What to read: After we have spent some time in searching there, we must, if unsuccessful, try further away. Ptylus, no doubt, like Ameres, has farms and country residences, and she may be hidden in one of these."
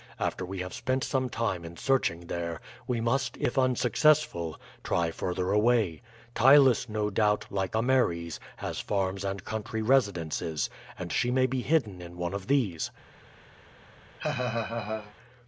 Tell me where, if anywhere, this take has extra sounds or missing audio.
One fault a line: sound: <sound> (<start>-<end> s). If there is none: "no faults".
sound: laugh (14.2-15.1 s)